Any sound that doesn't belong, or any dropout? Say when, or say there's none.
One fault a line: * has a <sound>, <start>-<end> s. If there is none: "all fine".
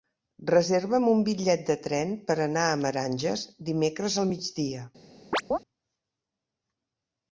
* has a chirp, 5.3-5.6 s